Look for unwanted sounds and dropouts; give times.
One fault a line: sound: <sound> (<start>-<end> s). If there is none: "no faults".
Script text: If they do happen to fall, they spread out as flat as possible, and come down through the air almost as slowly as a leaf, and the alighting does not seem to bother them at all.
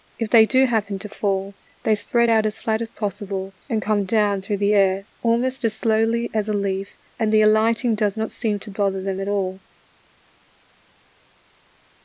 no faults